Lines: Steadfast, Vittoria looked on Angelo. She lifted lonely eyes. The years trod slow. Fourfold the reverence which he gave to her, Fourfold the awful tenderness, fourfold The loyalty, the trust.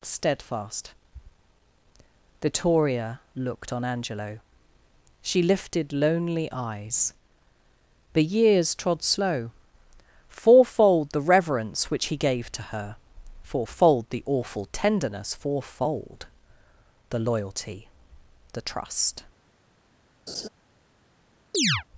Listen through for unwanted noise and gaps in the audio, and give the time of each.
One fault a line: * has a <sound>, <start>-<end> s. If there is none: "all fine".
* has a laugh, 20.3-20.5 s
* has a chirp, 21.5-21.8 s